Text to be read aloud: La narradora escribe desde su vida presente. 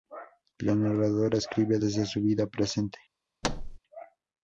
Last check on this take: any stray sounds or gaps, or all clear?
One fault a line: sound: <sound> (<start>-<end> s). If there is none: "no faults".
sound: thud (3.4-3.8 s)